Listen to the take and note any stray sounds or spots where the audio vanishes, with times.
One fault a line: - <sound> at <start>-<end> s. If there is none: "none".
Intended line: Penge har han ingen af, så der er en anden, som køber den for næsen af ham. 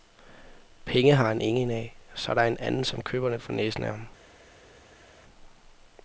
none